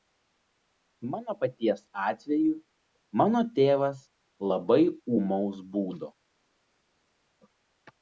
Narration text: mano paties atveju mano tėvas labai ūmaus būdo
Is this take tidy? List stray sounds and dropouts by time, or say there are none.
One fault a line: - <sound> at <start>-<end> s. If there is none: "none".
none